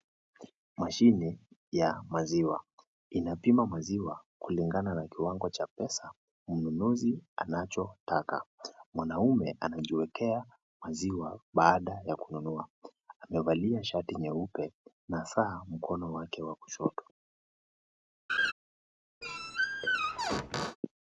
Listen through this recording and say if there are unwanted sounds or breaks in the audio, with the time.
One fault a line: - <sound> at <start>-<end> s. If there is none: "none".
- laugh at 18.3-18.5 s
- squeak at 19.2-20.8 s